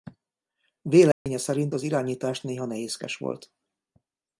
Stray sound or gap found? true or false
true